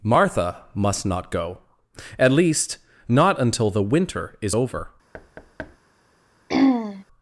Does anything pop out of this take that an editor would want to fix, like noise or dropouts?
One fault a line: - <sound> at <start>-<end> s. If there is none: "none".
- thud at 5.1-5.8 s
- throat clearing at 6.5-7.0 s